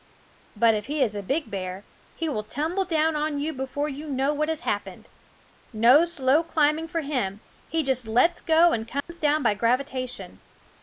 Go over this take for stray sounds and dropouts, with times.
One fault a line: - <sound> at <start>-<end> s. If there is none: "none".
- dropout at 9.0-9.1 s